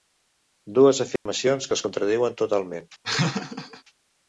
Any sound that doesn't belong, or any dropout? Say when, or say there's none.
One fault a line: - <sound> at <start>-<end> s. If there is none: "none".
- dropout at 1.2-1.3 s
- laugh at 3.0-3.8 s